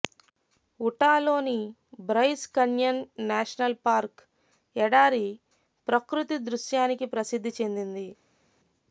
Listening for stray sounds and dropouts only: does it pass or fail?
pass